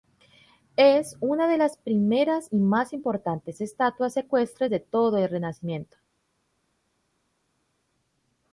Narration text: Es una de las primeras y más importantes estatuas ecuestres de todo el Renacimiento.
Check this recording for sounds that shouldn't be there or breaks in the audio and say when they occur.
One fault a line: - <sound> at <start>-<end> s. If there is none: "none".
none